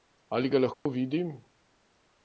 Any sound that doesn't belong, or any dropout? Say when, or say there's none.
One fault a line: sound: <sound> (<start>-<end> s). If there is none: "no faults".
sound: dropout (0.7-0.9 s)